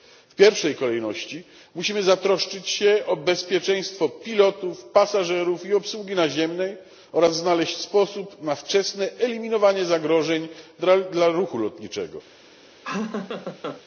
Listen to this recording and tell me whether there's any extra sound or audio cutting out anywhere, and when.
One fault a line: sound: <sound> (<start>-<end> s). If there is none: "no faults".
sound: laugh (12.8-13.8 s)